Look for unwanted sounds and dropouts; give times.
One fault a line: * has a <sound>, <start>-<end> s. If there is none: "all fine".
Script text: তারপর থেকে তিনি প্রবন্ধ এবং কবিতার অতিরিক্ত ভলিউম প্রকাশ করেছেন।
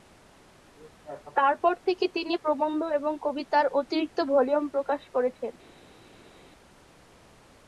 all fine